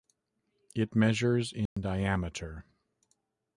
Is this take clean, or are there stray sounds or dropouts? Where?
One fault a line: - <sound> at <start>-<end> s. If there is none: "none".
- dropout at 1.7-1.8 s